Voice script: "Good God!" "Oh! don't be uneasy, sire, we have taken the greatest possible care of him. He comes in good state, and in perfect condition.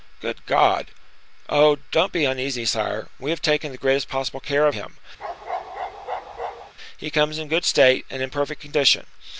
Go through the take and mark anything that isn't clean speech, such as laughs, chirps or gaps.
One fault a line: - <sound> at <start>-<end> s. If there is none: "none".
- bark at 5.2-6.7 s